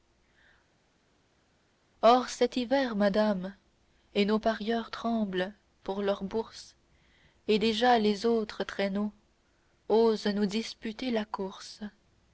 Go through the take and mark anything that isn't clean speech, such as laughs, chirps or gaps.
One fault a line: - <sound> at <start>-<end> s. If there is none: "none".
none